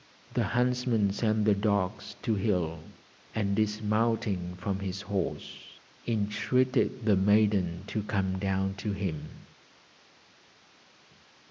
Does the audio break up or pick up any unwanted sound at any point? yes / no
no